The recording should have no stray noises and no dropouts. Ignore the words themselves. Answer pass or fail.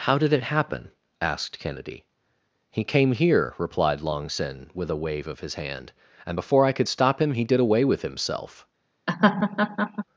fail